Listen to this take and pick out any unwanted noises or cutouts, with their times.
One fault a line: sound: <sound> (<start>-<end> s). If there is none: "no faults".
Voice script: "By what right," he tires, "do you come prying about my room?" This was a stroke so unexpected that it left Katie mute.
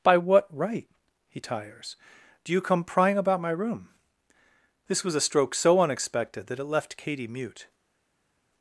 no faults